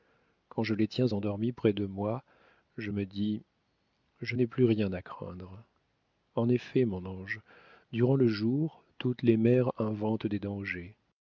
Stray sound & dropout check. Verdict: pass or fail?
pass